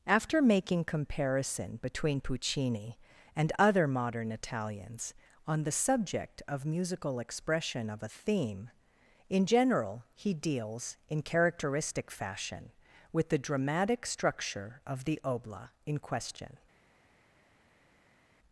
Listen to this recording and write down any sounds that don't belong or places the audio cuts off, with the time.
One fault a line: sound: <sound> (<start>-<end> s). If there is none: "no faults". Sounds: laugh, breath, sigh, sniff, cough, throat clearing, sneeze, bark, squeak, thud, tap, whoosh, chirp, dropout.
no faults